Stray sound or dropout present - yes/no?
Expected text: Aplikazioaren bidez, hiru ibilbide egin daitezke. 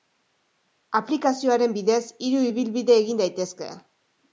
no